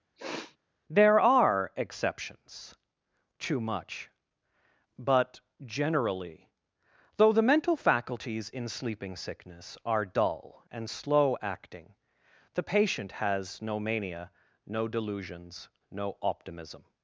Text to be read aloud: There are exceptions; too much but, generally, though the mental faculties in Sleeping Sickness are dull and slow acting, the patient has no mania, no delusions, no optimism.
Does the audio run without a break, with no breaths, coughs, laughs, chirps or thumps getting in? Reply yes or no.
no